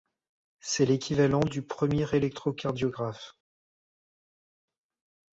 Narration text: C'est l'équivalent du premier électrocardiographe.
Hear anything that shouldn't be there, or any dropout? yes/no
no